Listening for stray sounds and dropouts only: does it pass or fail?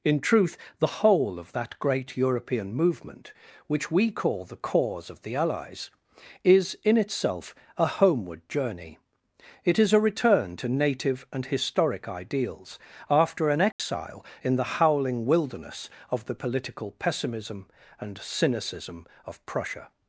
fail